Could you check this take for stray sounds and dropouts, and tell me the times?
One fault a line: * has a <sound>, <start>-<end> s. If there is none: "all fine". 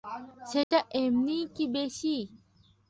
* has a dropout, 0.6-0.7 s